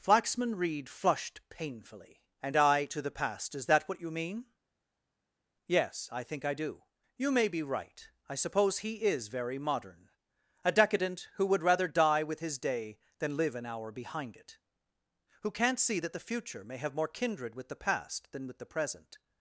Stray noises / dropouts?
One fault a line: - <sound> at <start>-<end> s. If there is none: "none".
none